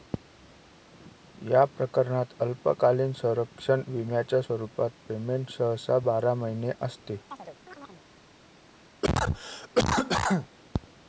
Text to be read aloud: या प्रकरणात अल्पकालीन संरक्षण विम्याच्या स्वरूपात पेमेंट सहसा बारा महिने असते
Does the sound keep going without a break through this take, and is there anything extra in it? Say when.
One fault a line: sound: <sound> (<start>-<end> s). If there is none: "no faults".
sound: chirp (7.3-8.1 s)
sound: cough (9.0-10.5 s)